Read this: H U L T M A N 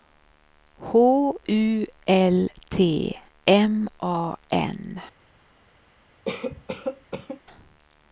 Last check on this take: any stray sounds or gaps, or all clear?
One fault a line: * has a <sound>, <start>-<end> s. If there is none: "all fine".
* has a cough, 6.3-7.4 s